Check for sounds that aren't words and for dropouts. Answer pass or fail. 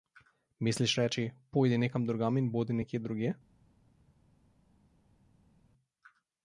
pass